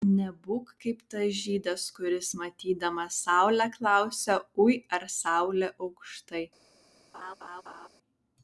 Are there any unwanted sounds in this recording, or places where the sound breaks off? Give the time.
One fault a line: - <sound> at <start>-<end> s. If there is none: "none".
- laugh at 7.1-7.9 s